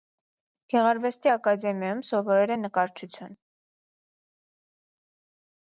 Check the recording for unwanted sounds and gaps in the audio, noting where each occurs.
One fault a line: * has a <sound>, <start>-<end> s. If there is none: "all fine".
all fine